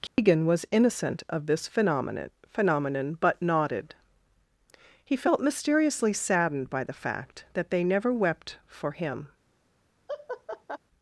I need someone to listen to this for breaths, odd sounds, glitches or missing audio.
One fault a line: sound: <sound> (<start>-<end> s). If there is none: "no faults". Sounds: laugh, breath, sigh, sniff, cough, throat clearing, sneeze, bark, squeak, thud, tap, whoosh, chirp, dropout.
sound: dropout (0.1-0.2 s)
sound: laugh (10.1-10.8 s)